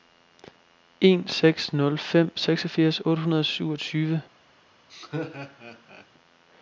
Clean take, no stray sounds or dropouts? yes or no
no